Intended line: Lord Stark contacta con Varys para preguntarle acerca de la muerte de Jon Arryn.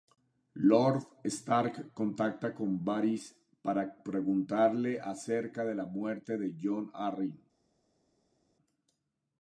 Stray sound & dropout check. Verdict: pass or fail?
pass